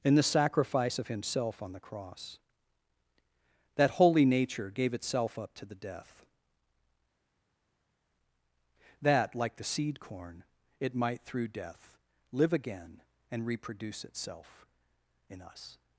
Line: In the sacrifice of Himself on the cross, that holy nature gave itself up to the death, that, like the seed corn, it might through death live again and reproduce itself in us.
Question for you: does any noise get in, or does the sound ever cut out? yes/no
no